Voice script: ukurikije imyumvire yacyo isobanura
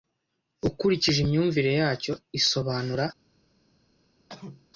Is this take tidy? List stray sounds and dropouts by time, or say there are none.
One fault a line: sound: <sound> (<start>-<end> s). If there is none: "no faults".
sound: cough (4.3-4.7 s)